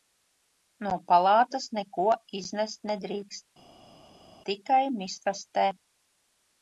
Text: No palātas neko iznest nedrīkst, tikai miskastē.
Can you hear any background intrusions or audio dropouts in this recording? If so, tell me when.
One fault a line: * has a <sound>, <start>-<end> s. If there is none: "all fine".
all fine